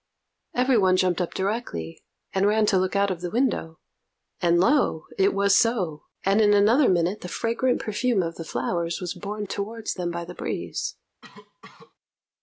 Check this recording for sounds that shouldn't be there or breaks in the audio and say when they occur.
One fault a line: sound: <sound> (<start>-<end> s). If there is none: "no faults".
sound: cough (11.2-11.9 s)